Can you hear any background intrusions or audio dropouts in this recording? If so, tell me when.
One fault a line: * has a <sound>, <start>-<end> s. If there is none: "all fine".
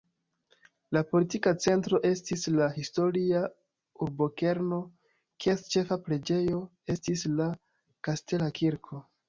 all fine